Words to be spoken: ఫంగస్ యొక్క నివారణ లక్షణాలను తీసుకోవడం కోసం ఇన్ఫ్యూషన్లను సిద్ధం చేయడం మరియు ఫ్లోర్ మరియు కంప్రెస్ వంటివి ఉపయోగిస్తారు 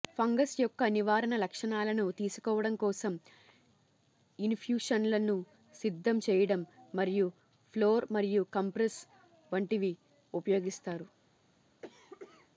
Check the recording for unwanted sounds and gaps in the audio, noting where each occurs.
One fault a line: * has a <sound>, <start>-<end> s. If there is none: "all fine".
* has a cough, 11.8-12.5 s